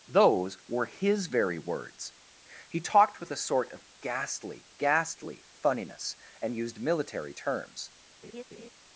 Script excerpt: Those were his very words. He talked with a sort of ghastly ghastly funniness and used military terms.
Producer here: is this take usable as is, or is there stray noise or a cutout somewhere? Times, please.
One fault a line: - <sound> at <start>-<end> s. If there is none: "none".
- laugh at 8.2-8.7 s